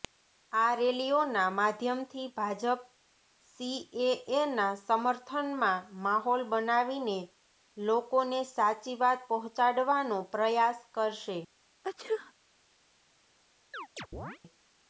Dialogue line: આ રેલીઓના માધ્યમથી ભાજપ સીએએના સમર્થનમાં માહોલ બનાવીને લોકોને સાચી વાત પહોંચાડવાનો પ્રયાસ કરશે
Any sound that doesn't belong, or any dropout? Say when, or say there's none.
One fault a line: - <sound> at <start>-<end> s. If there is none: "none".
- sneeze at 11.8-12.3 s
- chirp at 13.7-14.4 s